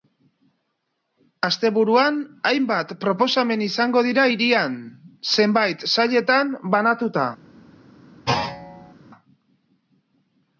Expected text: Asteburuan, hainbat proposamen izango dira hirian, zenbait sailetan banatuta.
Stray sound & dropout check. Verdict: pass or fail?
fail